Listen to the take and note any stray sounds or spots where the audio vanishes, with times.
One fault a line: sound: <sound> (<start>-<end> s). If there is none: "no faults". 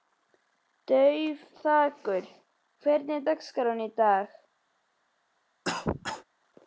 sound: cough (5.6-6.2 s)